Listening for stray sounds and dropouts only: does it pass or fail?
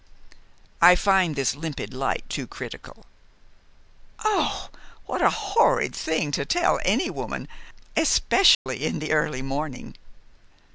fail